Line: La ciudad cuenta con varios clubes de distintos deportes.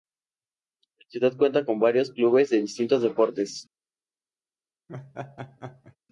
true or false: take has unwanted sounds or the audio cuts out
true